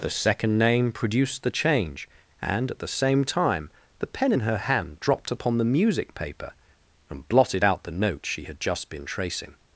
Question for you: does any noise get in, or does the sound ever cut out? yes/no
no